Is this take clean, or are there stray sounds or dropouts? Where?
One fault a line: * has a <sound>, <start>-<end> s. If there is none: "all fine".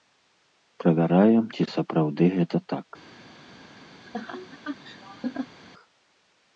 * has a laugh, 4.0-5.6 s